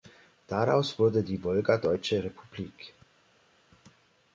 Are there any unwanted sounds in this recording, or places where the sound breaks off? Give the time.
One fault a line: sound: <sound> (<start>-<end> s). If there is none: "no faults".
no faults